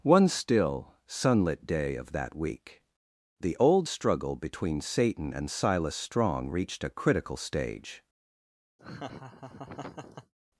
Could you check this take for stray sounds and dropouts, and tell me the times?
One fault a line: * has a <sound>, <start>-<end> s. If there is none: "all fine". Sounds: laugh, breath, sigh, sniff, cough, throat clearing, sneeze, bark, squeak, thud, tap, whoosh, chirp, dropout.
* has a laugh, 8.8-10.3 s